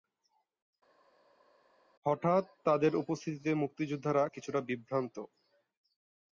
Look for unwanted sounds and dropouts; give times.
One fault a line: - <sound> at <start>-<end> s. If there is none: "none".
none